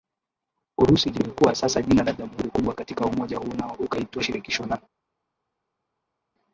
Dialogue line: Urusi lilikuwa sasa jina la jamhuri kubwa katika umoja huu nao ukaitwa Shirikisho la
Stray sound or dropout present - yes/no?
no